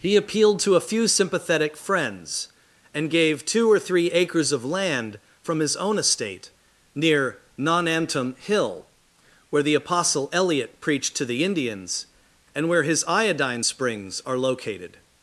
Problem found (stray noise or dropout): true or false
false